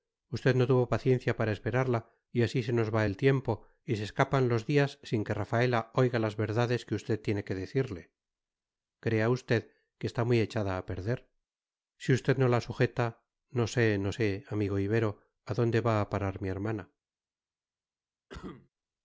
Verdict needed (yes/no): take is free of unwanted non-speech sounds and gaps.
no